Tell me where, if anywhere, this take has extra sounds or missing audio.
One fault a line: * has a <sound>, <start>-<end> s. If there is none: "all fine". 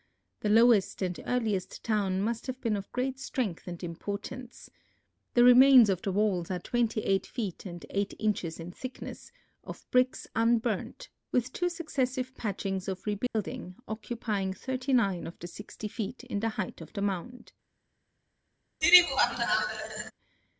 * has a dropout, 13.3-13.3 s
* has a laugh, 18.8-20.1 s